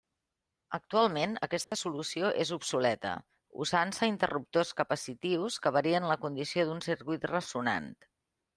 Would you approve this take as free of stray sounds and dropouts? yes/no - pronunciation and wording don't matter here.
no